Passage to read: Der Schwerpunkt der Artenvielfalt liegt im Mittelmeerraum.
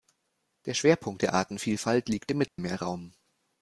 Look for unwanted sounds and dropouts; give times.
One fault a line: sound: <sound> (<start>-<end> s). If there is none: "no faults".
sound: dropout (2.5-2.6 s)